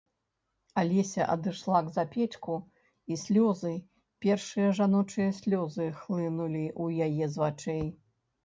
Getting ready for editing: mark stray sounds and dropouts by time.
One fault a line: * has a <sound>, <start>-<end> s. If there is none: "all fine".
all fine